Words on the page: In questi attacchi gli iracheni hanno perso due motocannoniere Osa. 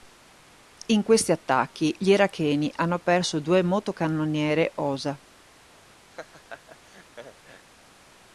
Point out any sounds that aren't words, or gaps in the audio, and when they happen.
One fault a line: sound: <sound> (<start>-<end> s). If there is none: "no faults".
sound: laugh (6.1-7.7 s)